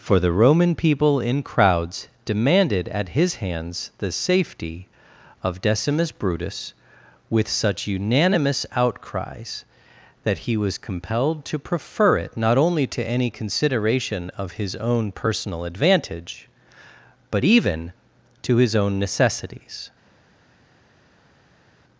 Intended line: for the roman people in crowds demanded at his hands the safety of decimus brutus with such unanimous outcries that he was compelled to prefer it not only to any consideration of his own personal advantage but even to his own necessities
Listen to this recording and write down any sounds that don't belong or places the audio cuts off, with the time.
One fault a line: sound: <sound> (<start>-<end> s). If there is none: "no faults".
no faults